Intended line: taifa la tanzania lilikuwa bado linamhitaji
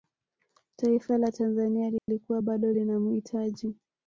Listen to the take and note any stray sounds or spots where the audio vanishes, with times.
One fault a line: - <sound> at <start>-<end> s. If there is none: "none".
- dropout at 2.0-2.1 s